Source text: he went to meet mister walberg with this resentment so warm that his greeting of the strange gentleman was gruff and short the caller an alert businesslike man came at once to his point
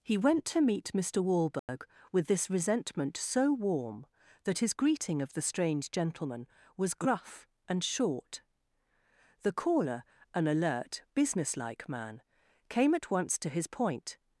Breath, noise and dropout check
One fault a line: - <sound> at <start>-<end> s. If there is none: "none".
- dropout at 1.6-1.7 s